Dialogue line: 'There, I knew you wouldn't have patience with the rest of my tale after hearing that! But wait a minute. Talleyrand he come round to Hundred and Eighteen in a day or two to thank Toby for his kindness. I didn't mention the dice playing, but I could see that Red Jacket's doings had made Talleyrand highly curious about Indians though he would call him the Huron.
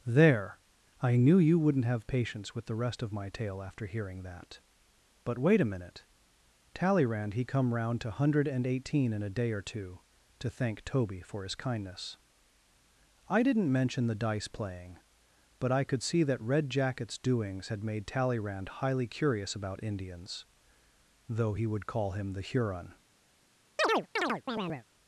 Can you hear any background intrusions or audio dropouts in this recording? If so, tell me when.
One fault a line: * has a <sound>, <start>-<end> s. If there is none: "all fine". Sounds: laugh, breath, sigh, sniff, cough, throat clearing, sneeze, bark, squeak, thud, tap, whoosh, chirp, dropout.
* has a chirp, 23.8-24.8 s